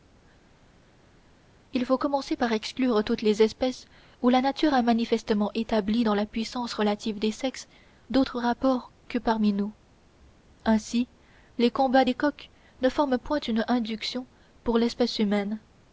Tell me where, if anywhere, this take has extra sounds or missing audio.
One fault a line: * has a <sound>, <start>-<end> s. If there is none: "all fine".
all fine